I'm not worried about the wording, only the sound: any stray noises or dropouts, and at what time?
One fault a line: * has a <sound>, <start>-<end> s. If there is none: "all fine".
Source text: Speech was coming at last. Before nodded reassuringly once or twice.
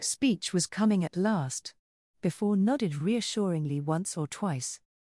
all fine